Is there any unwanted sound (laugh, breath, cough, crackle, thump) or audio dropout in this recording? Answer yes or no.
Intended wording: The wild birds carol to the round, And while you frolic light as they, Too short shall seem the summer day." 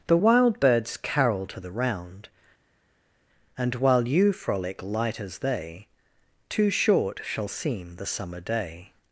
no